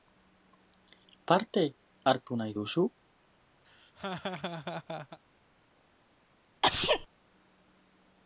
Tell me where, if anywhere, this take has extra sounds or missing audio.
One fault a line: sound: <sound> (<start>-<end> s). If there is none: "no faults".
sound: laugh (3.6-5.2 s)
sound: sneeze (6.6-7.1 s)